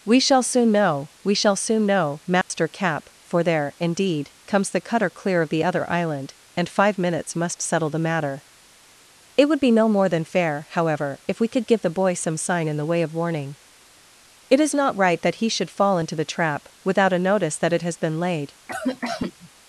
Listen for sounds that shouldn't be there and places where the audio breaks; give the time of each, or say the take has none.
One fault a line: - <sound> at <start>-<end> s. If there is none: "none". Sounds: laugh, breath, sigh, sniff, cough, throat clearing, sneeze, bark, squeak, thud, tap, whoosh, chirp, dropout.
- dropout at 2.4-2.5 s
- cough at 18.7-19.5 s